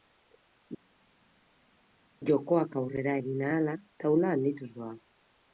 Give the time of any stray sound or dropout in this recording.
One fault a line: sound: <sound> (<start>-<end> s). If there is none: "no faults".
no faults